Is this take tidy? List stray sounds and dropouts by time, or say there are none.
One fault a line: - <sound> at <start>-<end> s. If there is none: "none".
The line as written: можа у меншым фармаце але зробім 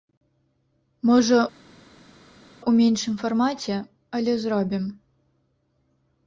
none